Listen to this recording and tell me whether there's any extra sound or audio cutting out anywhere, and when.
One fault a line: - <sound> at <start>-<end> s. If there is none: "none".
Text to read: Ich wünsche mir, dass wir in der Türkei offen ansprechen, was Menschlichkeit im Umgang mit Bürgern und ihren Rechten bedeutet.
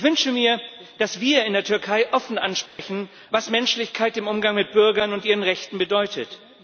- dropout at 2.7-2.8 s